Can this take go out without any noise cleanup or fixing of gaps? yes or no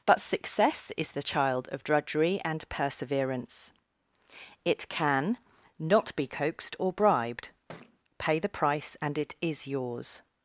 no